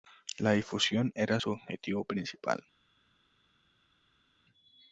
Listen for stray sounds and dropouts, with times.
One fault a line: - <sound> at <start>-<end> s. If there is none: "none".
none